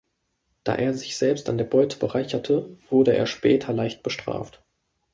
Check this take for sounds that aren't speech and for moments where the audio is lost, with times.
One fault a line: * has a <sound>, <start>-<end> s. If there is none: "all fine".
all fine